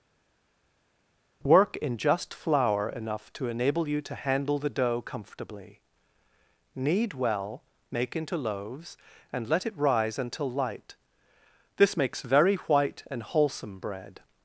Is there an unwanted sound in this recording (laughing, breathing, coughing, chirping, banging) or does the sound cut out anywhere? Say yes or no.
no